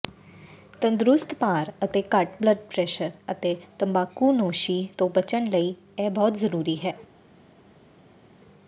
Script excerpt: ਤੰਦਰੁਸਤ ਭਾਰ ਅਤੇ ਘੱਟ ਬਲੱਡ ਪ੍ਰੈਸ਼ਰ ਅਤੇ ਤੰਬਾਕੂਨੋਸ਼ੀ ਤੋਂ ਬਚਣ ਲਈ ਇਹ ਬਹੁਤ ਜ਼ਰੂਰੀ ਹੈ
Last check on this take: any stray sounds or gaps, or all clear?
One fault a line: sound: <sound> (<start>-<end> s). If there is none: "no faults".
no faults